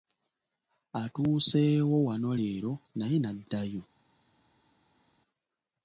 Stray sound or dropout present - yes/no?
no